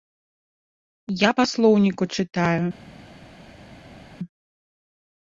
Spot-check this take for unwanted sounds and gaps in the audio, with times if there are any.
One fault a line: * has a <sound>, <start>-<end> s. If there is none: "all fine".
all fine